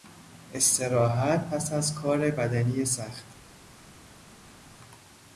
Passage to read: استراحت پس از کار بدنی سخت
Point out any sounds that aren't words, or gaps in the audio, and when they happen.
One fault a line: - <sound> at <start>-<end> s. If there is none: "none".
none